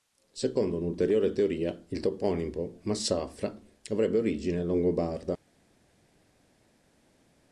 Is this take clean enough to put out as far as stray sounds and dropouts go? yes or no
yes